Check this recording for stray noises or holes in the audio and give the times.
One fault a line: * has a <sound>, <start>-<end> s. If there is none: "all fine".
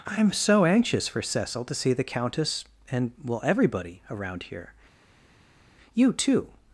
all fine